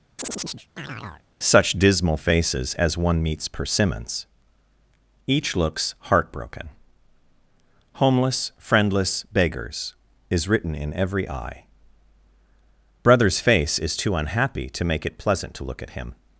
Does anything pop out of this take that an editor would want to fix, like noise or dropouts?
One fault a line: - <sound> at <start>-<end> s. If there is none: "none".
- chirp at 0.2-1.2 s